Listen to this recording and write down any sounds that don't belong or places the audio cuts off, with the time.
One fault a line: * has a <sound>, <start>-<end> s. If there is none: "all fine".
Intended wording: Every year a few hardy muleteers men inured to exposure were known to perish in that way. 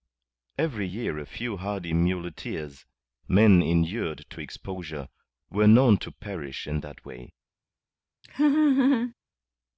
* has a laugh, 8.2-9.1 s